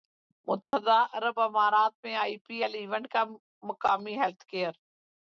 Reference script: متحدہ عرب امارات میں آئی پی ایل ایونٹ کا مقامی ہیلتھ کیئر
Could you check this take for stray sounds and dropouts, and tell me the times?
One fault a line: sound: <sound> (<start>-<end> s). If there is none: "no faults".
sound: dropout (0.6-0.7 s)